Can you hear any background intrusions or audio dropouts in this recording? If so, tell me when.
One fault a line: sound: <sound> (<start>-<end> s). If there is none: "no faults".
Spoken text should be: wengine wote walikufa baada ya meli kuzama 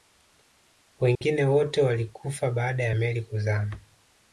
sound: dropout (1.2-1.2 s)